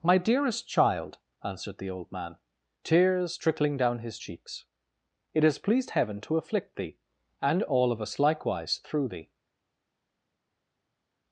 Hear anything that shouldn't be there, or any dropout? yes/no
no